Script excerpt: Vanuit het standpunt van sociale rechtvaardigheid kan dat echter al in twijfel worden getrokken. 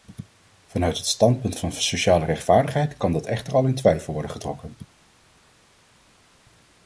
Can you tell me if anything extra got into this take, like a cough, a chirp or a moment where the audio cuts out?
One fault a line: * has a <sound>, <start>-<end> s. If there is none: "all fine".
all fine